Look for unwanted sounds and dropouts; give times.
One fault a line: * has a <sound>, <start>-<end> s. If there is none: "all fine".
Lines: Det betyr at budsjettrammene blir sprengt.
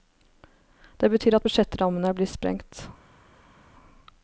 all fine